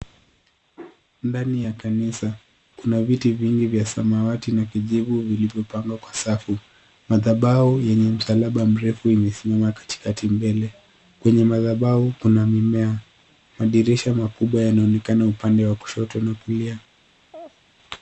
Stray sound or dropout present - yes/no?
yes